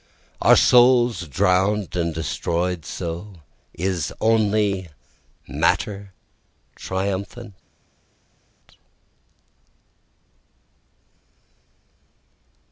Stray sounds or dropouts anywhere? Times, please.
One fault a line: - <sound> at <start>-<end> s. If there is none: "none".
none